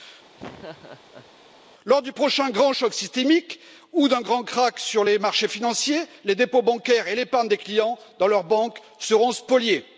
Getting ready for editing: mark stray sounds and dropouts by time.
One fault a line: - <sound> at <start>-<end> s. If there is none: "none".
- laugh at 0.4-1.3 s